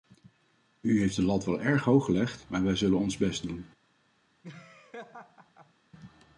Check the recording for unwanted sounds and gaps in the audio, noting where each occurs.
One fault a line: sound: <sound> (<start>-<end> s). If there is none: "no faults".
sound: laugh (4.4-5.7 s)